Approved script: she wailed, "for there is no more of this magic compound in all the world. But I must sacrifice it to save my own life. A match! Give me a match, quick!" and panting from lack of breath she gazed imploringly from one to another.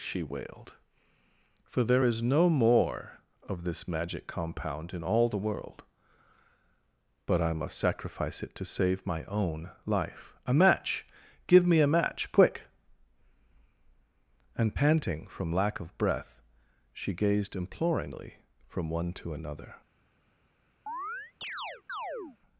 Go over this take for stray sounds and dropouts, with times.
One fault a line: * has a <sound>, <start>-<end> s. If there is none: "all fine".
* has a chirp, 20.9-22.4 s